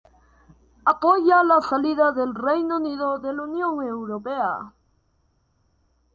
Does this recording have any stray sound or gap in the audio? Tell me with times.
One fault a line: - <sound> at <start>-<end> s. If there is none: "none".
none